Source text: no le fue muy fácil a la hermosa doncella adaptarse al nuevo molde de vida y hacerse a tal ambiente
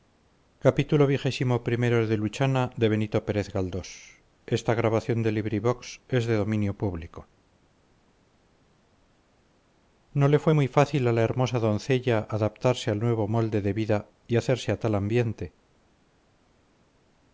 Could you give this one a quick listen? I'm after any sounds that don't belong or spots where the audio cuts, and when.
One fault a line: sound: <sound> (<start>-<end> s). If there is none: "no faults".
no faults